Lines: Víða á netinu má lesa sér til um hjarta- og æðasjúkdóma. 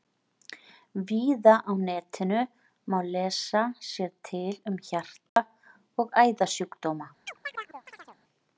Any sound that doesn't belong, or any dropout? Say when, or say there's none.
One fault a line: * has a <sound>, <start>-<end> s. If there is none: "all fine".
* has a dropout, 5.3-5.4 s
* has a chirp, 7.3-8.2 s